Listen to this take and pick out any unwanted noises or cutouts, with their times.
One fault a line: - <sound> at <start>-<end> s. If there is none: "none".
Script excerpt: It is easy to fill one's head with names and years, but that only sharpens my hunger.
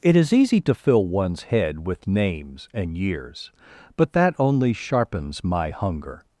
none